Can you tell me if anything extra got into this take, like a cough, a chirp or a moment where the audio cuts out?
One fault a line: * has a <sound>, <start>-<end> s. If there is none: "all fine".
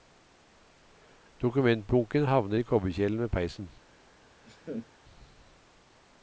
* has a laugh, 4.4-4.9 s